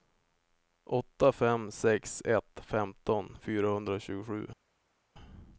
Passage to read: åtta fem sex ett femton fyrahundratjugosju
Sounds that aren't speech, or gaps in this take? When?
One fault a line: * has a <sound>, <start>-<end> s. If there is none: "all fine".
all fine